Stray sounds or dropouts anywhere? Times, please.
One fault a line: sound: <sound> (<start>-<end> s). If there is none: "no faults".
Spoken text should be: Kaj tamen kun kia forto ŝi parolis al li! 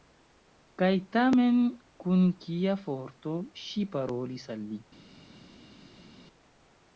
no faults